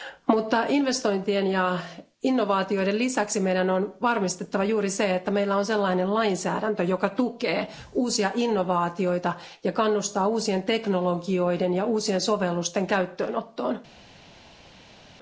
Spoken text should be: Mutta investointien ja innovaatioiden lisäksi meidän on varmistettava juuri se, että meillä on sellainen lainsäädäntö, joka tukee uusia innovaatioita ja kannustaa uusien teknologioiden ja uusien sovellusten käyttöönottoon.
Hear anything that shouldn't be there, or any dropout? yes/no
no